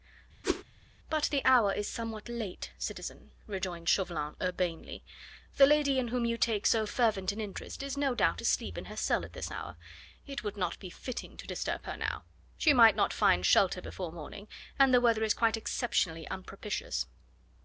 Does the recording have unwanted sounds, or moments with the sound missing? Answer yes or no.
yes